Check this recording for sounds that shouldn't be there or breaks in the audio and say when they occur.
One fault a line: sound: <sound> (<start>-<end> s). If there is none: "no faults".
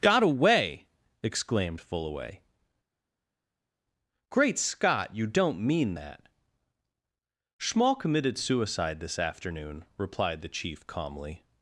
no faults